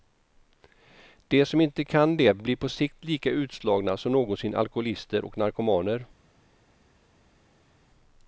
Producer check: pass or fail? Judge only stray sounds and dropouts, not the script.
pass